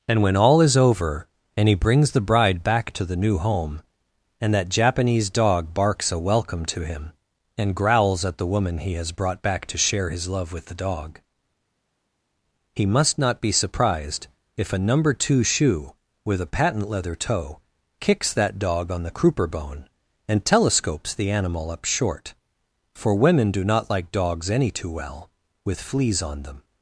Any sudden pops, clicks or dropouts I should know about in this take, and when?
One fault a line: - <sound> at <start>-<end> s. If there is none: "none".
none